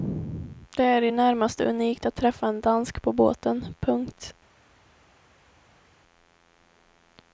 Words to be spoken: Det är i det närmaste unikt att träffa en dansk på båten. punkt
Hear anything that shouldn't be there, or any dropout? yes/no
no